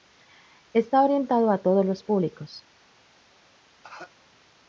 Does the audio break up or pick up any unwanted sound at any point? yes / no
yes